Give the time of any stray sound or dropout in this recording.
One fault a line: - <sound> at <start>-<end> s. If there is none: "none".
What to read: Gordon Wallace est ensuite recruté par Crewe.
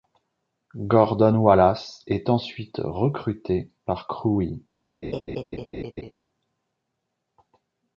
- laugh at 5.0-6.1 s